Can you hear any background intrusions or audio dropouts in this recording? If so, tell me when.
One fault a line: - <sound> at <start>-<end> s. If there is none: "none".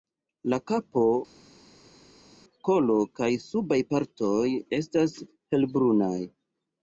none